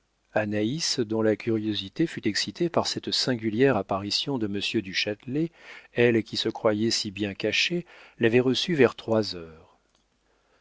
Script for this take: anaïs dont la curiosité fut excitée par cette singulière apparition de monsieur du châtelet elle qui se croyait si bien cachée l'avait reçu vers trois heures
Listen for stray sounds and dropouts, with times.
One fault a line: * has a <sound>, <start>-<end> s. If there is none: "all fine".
all fine